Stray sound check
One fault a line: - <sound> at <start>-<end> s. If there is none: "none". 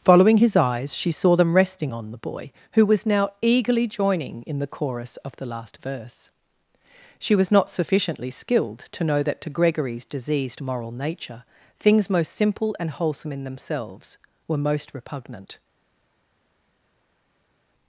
none